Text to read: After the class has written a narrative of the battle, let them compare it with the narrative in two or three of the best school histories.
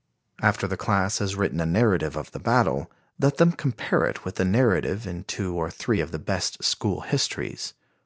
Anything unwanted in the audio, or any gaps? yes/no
no